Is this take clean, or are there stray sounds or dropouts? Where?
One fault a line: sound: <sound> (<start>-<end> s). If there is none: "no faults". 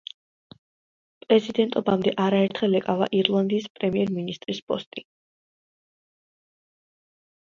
no faults